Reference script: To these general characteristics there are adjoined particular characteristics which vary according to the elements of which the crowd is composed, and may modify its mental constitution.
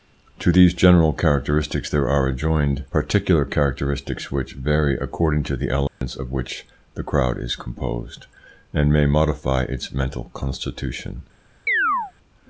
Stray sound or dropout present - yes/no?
yes